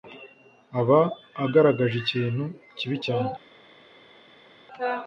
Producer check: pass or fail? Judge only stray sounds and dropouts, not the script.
pass